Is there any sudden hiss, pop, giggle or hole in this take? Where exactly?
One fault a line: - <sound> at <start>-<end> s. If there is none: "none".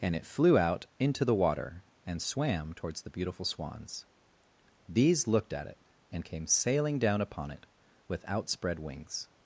none